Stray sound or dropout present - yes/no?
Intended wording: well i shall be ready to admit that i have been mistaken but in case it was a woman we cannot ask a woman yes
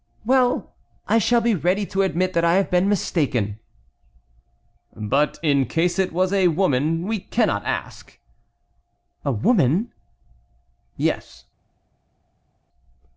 no